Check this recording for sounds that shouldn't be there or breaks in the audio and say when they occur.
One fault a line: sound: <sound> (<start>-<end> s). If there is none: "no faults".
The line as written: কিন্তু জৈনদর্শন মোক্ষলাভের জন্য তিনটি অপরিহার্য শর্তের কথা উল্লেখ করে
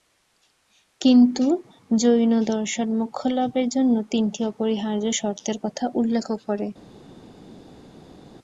no faults